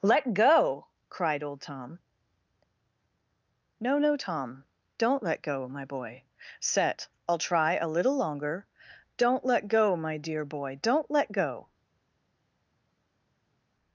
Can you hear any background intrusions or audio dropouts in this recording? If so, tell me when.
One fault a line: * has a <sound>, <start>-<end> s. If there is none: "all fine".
all fine